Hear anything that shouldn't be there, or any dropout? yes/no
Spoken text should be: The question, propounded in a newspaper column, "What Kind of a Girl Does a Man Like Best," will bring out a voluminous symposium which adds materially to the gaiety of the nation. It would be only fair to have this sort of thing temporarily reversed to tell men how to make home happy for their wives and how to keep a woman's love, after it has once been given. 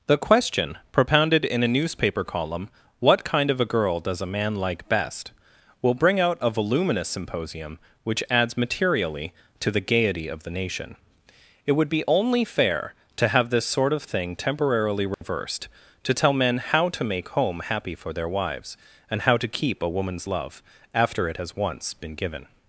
yes